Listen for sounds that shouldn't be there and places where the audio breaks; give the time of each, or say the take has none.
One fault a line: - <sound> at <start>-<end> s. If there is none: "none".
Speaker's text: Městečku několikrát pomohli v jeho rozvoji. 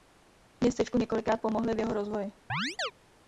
- chirp at 2.5-2.9 s